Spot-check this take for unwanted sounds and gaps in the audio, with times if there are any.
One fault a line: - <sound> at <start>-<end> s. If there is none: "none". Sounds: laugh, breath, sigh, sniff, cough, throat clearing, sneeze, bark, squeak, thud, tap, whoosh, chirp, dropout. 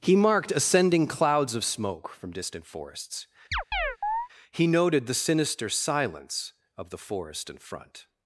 - chirp at 3.5-4.3 s